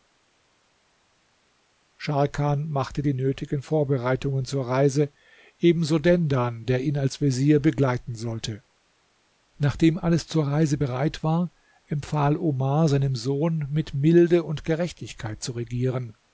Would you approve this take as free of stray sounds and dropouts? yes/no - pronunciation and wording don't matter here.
yes